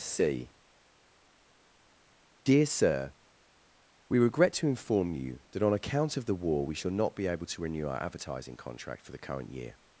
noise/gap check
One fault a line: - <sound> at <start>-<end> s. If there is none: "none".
none